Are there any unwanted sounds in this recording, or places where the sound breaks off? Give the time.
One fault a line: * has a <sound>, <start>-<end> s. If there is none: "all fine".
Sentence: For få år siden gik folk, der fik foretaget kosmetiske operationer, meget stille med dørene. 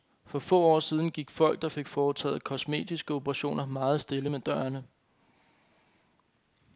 all fine